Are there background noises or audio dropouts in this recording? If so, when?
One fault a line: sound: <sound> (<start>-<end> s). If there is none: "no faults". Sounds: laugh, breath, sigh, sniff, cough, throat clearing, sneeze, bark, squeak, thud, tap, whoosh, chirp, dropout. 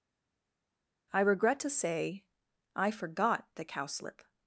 no faults